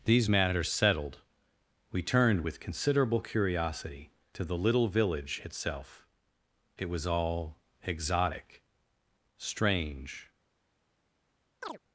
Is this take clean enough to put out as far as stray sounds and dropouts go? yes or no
no